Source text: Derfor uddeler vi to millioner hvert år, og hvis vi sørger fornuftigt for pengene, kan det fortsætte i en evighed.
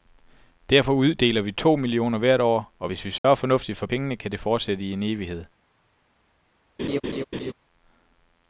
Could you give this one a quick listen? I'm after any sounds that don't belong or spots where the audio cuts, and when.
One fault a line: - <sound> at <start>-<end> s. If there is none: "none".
- dropout at 3.2-3.2 s
- laugh at 6.8-7.5 s